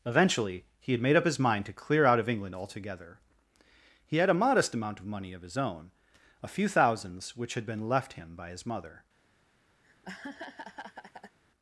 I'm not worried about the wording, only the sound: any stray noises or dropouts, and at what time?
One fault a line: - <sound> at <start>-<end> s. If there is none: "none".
- laugh at 9.8-11.4 s